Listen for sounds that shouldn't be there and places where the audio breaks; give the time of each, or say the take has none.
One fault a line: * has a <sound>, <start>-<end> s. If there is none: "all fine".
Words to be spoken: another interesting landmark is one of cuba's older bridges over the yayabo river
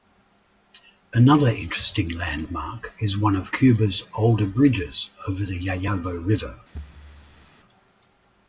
* has a thud, 6.7-7.5 s